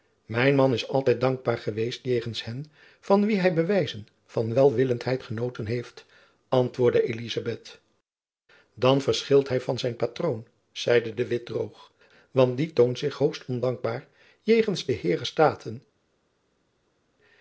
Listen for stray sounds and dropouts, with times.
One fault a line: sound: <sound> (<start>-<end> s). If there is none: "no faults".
no faults